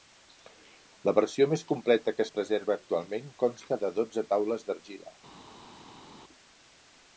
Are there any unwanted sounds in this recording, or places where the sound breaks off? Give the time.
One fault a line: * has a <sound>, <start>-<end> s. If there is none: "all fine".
all fine